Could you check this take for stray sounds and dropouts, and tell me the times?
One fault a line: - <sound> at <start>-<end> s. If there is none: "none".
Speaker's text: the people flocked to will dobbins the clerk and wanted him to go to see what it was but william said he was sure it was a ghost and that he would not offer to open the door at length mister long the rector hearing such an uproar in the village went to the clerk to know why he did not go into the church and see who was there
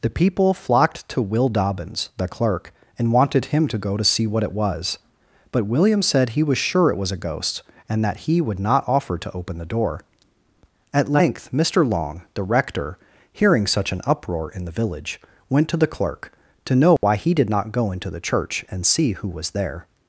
- dropout at 17.0-17.0 s